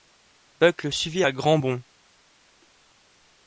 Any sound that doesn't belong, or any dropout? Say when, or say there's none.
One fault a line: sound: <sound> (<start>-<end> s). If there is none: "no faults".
no faults